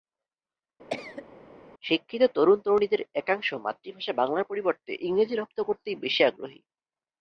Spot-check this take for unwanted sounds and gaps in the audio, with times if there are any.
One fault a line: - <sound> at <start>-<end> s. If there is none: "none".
- cough at 0.9-1.3 s